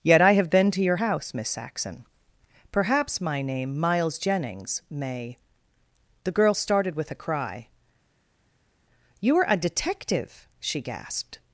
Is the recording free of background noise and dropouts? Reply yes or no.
yes